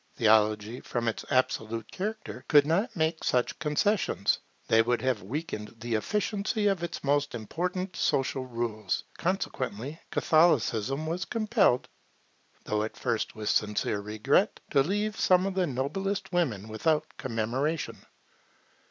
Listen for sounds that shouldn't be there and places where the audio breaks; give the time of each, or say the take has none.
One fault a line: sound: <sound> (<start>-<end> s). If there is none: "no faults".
no faults